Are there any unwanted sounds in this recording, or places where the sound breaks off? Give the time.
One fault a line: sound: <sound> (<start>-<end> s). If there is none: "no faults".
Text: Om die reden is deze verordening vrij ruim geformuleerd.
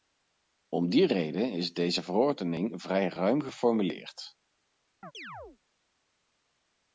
sound: chirp (5.0-5.6 s)